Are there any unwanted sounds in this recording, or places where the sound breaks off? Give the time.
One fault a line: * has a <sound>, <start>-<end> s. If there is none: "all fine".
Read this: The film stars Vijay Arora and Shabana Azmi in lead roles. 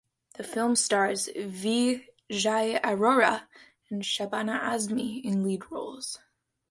all fine